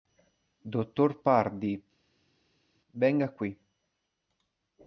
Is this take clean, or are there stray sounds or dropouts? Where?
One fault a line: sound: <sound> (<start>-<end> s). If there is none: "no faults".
no faults